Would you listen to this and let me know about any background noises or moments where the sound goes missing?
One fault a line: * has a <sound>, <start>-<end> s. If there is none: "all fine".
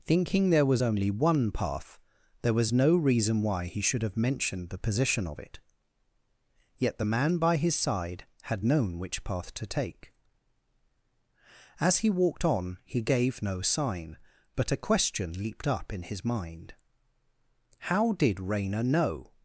all fine